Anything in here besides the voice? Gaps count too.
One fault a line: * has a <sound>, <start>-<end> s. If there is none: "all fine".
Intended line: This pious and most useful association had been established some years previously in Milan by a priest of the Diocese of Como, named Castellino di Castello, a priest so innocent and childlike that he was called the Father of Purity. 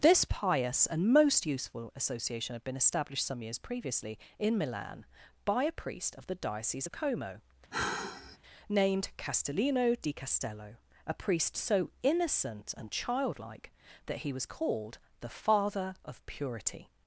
* has a sigh, 7.7-8.4 s